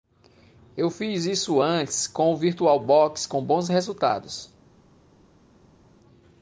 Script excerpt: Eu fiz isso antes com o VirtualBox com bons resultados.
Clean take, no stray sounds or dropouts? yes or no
yes